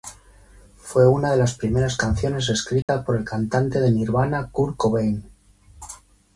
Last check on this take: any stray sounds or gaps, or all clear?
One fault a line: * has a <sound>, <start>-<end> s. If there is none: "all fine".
* has a dropout, 2.8-2.9 s